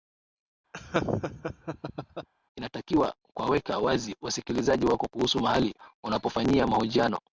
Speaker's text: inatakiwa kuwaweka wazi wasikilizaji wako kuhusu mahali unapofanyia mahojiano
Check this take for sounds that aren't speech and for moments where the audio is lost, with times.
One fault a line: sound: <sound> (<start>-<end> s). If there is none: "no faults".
sound: laugh (0.7-2.3 s)